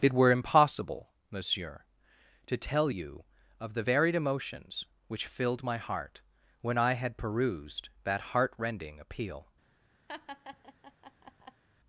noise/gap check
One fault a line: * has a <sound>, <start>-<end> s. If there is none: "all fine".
* has a laugh, 10.1-11.6 s